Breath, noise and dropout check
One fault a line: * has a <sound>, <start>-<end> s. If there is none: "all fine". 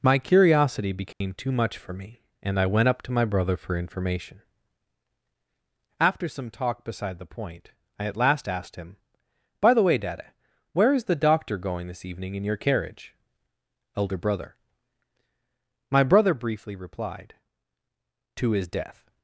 * has a dropout, 1.1-1.2 s